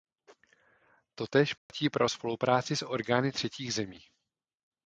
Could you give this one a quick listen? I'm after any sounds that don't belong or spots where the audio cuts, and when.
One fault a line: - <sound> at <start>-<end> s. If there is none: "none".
- dropout at 1.6-1.7 s